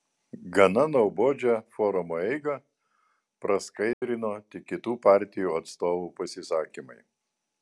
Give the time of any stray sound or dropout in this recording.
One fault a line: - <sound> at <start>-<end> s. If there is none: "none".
- dropout at 3.9-4.0 s